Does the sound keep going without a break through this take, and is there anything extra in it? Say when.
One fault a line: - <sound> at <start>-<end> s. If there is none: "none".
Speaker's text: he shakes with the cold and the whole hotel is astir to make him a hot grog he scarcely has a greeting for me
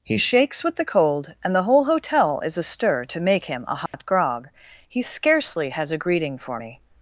- dropout at 3.9-3.9 s